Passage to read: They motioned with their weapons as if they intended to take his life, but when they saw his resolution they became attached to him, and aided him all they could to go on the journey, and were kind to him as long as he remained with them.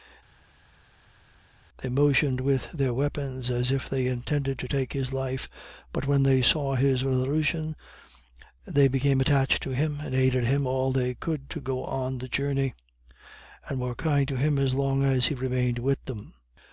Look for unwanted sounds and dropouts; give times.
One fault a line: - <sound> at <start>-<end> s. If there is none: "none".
none